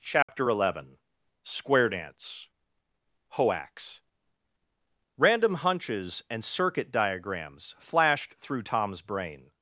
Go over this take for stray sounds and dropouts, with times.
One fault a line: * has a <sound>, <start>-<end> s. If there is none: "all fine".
* has a dropout, 0.2-0.3 s